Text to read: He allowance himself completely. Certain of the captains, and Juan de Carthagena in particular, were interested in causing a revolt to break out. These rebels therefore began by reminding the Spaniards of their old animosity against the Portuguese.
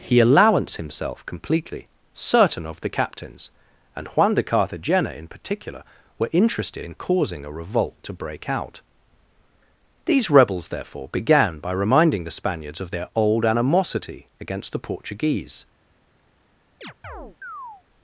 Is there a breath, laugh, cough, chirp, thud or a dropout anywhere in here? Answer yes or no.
yes